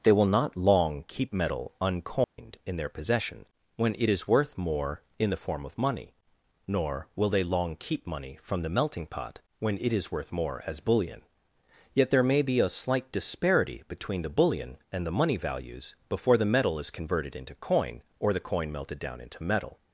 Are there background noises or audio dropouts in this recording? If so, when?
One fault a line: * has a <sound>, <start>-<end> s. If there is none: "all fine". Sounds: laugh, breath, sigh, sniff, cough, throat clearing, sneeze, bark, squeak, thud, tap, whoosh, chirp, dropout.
* has a dropout, 2.2-2.4 s